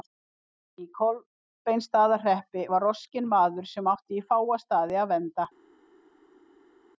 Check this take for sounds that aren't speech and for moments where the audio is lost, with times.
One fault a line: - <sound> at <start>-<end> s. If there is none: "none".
none